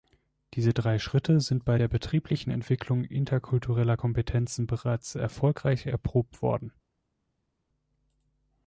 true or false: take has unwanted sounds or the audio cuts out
false